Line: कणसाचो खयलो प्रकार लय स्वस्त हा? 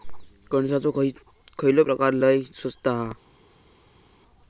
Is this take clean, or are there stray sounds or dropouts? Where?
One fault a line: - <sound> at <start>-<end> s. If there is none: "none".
none